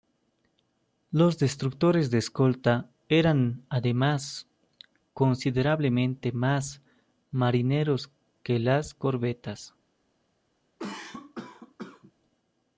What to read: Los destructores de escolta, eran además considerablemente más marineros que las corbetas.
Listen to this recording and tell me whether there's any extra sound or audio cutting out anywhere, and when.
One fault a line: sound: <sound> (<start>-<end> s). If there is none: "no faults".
sound: cough (10.8-12.1 s)